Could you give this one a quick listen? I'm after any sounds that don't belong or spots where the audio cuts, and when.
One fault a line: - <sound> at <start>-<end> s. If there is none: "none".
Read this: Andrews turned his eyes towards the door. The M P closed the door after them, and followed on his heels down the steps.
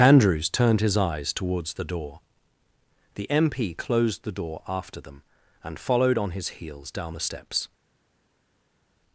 none